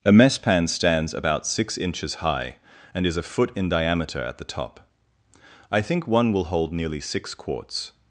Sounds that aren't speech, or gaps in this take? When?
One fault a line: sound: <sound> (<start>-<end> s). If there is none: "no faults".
no faults